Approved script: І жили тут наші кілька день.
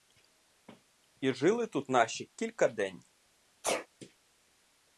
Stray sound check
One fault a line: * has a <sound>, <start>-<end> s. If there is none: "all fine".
* has a sneeze, 3.6-3.9 s